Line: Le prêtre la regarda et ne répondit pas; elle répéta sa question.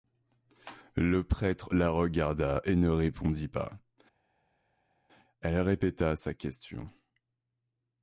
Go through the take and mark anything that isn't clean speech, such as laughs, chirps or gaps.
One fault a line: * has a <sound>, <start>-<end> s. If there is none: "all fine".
all fine